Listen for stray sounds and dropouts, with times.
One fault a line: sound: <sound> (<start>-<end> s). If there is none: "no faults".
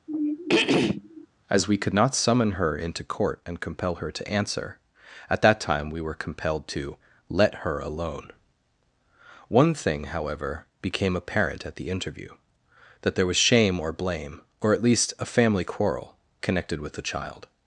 sound: throat clearing (0.1-1.3 s)